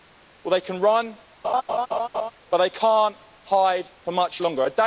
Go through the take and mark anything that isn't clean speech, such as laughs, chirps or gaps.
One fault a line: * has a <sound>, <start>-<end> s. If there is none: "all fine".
* has a laugh, 1.4-2.3 s